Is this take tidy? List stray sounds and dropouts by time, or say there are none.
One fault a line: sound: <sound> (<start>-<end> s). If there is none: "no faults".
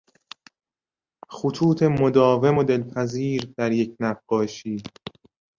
no faults